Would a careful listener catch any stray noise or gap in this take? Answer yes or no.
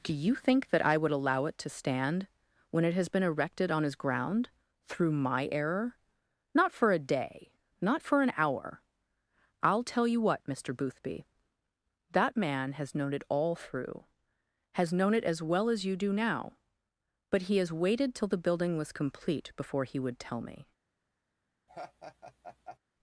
yes